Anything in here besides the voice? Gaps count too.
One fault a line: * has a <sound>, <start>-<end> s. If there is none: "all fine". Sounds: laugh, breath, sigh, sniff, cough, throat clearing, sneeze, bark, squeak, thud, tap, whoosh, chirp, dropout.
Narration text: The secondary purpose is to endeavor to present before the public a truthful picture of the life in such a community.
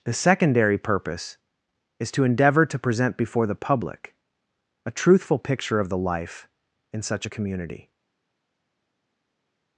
all fine